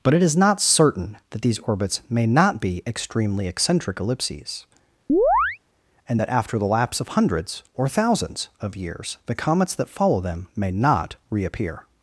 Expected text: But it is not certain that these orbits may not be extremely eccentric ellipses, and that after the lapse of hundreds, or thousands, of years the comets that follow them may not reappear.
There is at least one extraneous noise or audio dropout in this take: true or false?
true